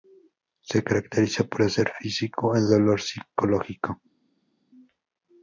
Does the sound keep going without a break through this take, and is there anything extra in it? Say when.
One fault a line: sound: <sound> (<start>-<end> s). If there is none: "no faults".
no faults